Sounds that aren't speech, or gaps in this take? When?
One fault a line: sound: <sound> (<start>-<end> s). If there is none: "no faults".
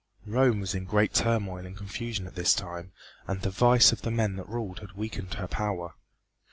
no faults